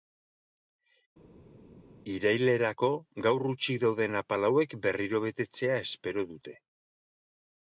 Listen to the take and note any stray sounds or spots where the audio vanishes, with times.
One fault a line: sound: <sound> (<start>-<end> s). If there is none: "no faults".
no faults